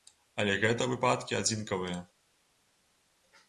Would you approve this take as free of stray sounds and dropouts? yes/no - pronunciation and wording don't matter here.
yes